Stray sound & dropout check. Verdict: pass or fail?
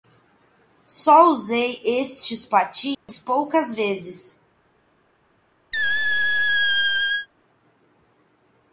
fail